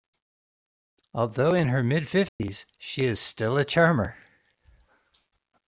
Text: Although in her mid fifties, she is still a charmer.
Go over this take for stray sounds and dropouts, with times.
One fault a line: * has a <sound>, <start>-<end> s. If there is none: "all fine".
* has a dropout, 2.3-2.4 s